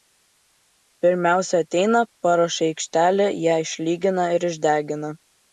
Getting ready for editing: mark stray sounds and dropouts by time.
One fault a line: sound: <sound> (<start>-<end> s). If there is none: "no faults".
no faults